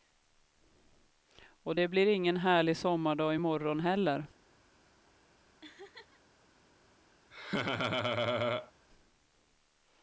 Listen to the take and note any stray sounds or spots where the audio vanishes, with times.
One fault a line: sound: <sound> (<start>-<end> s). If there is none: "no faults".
sound: laugh (5.6-6.2 s)
sound: laugh (7.3-8.7 s)